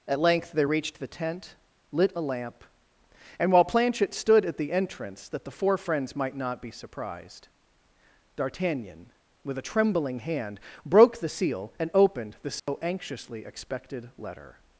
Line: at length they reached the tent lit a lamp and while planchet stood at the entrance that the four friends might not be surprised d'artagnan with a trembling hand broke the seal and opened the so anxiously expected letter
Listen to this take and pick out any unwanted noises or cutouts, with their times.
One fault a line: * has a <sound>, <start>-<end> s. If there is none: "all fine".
* has a dropout, 12.6-12.7 s